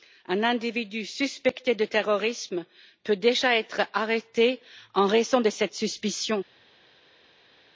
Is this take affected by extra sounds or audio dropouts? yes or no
no